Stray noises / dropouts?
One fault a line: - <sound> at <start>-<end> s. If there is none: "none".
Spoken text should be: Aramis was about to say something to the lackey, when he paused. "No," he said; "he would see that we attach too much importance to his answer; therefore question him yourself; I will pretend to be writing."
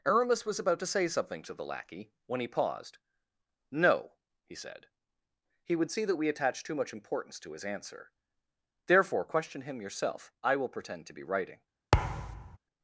- thud at 11.9-12.6 s